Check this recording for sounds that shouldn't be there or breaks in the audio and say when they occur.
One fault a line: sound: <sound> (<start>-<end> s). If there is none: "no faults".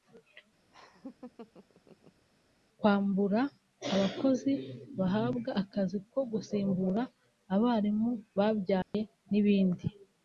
sound: laugh (0.7-2.3 s)
sound: dropout (8.8-8.9 s)